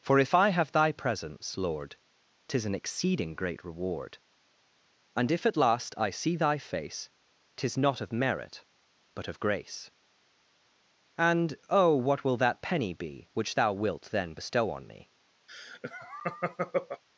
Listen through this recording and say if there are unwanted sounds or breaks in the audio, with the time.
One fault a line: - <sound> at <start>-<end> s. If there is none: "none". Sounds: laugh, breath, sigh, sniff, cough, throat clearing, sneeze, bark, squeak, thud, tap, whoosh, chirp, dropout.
- laugh at 15.5-17.0 s